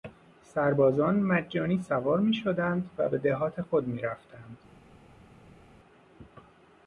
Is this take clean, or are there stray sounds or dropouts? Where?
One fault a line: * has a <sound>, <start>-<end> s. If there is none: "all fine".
all fine